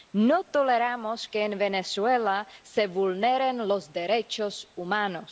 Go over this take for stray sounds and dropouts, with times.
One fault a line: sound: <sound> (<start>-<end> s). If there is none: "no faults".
no faults